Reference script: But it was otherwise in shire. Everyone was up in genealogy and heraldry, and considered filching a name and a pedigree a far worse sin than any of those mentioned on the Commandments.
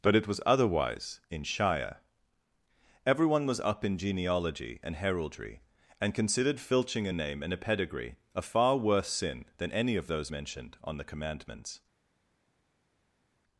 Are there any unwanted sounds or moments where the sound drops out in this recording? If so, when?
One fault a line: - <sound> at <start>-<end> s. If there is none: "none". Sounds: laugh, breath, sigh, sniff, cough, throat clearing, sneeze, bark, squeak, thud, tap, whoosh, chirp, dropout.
none